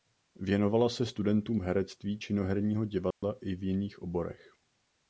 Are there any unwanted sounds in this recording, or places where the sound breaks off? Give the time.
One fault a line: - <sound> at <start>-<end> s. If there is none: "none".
- dropout at 3.1-3.2 s